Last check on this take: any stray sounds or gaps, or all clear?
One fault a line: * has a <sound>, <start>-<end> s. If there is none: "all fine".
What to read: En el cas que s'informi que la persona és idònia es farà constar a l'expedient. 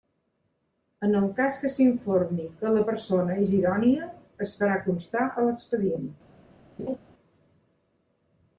* has a laugh, 6.8-7.0 s